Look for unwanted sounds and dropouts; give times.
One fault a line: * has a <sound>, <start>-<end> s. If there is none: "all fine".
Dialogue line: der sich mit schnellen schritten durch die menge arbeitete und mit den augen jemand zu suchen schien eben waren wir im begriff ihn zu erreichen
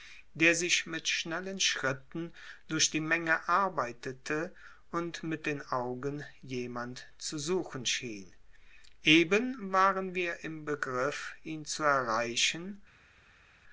all fine